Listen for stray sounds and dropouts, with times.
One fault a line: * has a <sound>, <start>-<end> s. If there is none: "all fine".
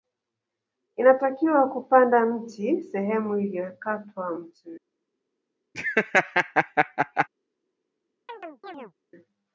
* has a laugh, 5.7-7.3 s
* has a chirp, 8.3-8.9 s